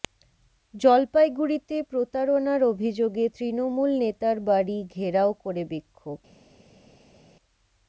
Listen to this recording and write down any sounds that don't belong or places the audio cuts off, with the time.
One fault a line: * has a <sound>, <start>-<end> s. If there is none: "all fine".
all fine